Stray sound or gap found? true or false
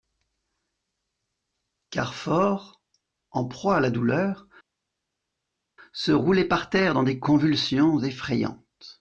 false